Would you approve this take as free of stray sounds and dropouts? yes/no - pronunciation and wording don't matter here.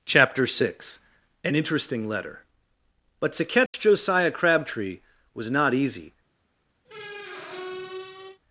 no